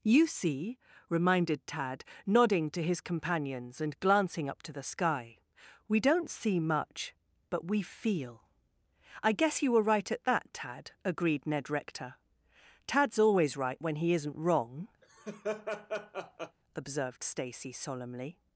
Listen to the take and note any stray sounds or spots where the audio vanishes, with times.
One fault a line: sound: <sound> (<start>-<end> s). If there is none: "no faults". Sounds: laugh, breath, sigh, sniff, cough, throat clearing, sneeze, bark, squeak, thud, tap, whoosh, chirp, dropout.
sound: laugh (15.0-16.6 s)